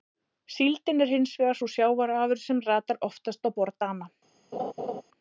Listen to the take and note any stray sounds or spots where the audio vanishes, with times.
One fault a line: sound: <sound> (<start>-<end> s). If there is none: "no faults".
sound: laugh (4.5-5.0 s)